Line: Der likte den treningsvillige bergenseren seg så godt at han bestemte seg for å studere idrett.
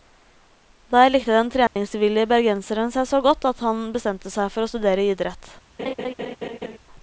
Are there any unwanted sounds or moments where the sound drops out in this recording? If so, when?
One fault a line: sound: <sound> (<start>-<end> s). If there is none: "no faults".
sound: dropout (1.7-1.8 s)
sound: laugh (5.8-6.8 s)